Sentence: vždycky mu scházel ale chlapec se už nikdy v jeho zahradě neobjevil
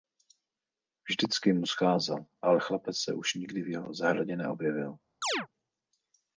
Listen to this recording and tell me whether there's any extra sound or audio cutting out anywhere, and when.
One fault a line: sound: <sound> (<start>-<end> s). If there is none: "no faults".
sound: chirp (5.2-5.5 s)